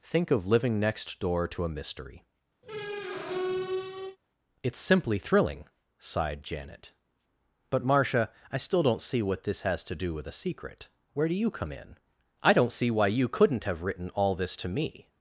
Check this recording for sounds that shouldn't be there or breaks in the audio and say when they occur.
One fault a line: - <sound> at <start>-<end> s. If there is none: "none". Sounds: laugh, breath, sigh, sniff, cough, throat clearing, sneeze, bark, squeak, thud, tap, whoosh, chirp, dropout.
- squeak at 2.6-4.2 s